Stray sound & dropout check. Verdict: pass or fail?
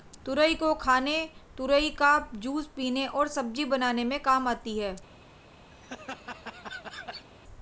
fail